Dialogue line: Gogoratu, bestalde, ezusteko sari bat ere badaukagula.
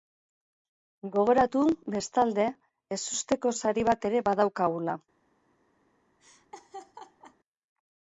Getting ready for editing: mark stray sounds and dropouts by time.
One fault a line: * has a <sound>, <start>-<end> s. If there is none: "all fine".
* has a laugh, 6.2-7.4 s